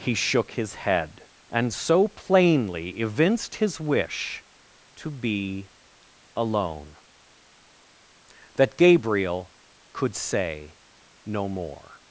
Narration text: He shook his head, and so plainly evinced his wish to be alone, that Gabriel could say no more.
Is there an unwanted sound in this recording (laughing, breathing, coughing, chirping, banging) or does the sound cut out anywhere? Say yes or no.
no